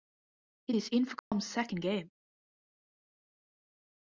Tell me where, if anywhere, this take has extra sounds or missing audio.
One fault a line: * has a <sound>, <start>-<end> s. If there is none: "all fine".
* has a dropout, 1.2-1.3 s